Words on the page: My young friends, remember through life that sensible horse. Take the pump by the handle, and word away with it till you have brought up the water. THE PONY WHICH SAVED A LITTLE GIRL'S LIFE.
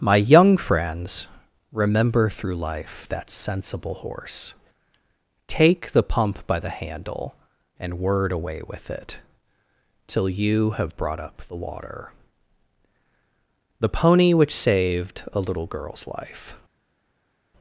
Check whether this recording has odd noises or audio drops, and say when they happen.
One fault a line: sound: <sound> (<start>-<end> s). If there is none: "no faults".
no faults